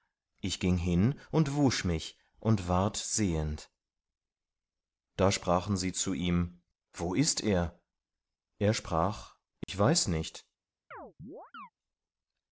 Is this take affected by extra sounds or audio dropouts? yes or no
yes